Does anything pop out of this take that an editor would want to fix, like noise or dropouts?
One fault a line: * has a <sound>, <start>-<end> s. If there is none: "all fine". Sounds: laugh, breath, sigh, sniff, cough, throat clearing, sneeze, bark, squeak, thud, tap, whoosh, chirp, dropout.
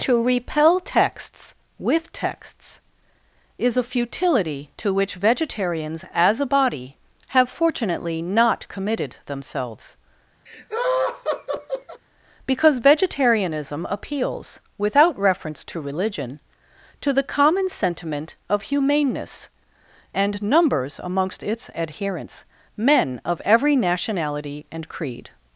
* has a laugh, 10.5-12.0 s